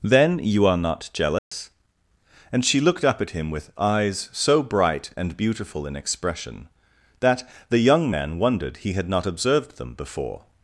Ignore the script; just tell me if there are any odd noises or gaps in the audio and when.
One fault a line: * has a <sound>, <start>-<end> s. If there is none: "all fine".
* has a dropout, 1.4-1.5 s